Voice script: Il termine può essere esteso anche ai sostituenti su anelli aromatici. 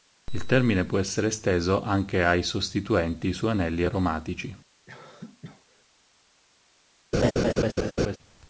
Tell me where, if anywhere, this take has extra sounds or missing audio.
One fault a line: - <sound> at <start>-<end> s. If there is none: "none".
- cough at 4.9-5.8 s
- laugh at 7.1-8.2 s